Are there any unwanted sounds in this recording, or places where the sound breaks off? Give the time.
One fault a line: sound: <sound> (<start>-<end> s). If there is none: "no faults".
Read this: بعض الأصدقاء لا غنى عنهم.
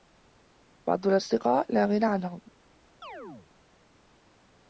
sound: chirp (3.0-3.5 s)